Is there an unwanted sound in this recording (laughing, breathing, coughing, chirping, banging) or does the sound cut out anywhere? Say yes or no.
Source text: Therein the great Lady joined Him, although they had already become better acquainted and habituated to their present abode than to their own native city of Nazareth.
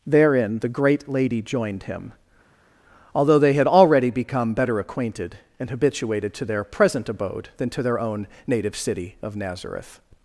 no